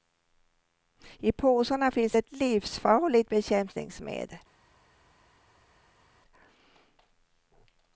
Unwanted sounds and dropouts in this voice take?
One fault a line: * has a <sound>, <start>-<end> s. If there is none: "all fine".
all fine